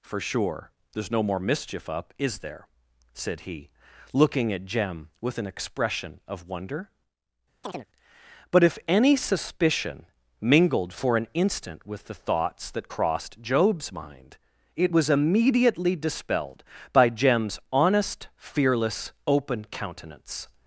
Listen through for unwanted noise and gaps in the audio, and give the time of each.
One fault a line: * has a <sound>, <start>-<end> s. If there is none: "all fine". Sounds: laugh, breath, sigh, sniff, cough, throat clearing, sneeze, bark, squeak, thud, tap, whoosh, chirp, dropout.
* has a chirp, 7.6-7.9 s